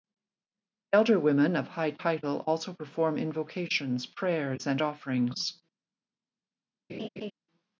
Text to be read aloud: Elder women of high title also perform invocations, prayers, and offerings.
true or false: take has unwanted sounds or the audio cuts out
true